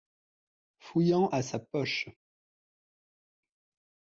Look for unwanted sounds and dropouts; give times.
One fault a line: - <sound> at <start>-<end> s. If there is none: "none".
none